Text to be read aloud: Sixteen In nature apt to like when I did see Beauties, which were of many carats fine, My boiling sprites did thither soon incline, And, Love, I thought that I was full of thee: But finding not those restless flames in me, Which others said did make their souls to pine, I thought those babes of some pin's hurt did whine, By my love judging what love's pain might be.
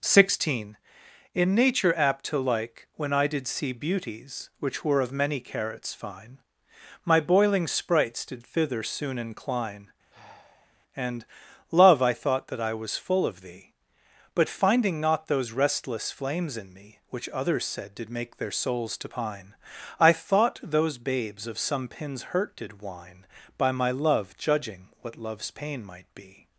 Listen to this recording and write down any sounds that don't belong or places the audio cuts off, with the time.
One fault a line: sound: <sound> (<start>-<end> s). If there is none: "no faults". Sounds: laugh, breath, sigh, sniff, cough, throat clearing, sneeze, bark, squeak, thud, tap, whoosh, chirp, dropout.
sound: sigh (10.1-10.8 s)